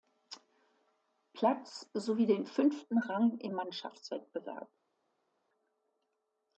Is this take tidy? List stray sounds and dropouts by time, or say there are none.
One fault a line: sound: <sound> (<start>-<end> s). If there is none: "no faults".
no faults